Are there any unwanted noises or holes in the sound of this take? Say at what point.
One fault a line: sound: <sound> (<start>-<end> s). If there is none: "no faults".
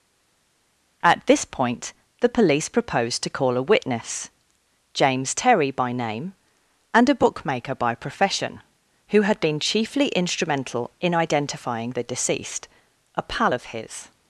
no faults